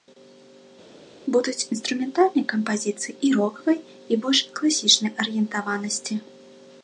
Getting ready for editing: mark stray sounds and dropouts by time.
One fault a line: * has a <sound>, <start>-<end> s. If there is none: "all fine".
all fine